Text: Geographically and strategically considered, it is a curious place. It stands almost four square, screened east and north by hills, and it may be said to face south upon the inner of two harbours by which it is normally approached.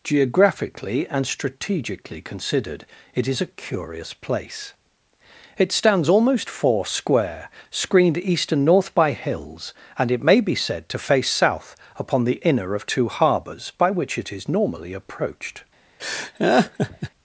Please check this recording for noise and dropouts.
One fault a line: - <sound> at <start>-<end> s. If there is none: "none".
- laugh at 16.0-17.1 s